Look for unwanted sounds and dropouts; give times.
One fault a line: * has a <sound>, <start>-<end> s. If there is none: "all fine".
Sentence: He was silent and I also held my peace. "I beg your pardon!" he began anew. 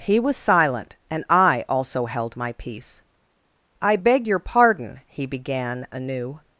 all fine